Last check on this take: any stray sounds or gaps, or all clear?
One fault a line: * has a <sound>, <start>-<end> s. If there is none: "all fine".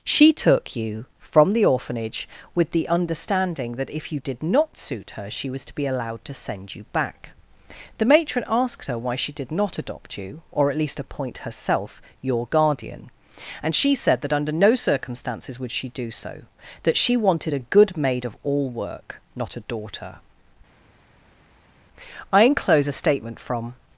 all fine